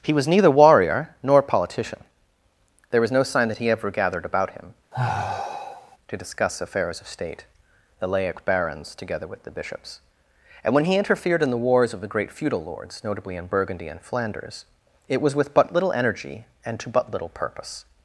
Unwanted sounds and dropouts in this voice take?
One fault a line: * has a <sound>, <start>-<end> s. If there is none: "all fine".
* has a sigh, 4.9-6.0 s